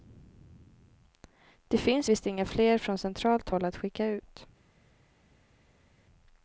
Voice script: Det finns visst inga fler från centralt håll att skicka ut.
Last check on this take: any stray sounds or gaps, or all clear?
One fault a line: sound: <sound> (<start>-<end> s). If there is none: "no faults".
no faults